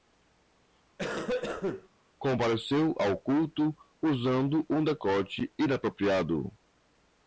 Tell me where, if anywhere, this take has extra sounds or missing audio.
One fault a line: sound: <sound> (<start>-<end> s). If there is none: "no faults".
sound: cough (1.0-1.9 s)